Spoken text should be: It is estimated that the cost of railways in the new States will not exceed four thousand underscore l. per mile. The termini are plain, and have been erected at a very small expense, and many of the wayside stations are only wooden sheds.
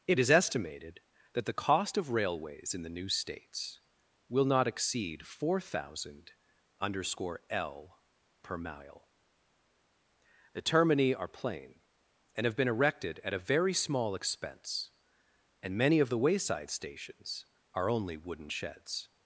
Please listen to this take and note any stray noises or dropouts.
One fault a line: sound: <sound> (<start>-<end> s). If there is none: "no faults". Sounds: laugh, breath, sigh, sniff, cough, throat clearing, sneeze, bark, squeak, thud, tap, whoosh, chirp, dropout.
no faults